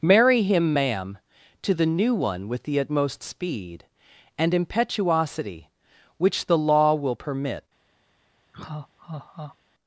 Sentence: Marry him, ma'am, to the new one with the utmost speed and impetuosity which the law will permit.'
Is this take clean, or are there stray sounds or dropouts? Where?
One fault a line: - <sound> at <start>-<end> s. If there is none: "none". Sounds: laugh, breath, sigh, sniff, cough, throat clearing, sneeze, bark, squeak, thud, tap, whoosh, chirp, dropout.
- laugh at 8.5-9.6 s